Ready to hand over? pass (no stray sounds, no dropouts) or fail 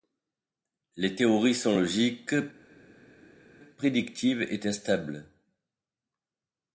pass